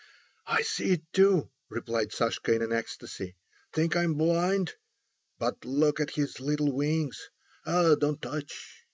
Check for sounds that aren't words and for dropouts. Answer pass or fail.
pass